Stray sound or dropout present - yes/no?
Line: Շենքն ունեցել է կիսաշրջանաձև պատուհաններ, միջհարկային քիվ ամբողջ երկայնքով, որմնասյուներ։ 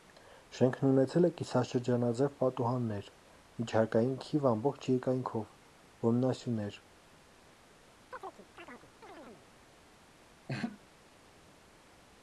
yes